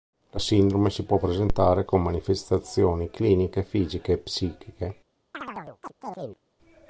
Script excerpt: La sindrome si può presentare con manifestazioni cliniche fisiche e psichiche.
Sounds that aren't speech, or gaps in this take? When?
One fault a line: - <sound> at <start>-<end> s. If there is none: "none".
- chirp at 5.3-6.4 s